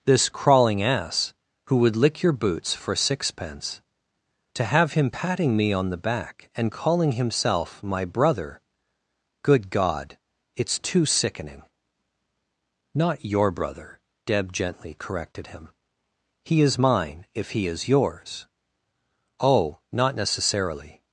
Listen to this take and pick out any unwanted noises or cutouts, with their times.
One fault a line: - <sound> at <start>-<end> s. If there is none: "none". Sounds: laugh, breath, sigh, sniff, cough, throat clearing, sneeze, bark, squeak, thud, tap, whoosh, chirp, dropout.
none